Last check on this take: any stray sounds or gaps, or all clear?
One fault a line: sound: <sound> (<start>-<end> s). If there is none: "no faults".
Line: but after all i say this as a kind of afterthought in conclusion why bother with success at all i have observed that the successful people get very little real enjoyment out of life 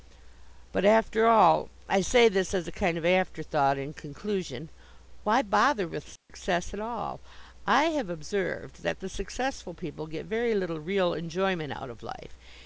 sound: dropout (6.2-6.3 s)